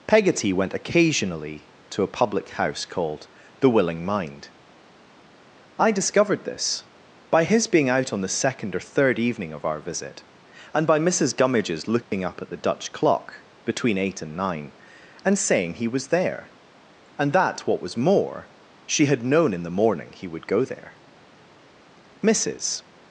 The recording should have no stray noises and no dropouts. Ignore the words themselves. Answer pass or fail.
fail